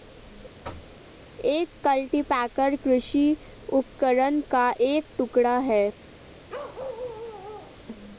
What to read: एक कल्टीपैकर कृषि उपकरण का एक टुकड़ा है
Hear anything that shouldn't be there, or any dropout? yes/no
yes